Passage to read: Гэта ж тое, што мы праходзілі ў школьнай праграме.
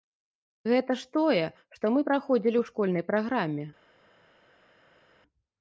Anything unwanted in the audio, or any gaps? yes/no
no